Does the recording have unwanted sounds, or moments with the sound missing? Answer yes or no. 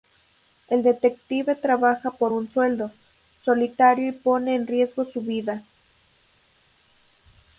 no